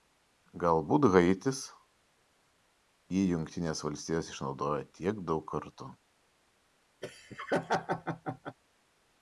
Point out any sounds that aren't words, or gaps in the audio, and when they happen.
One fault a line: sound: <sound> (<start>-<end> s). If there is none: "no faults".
sound: laugh (7.0-8.6 s)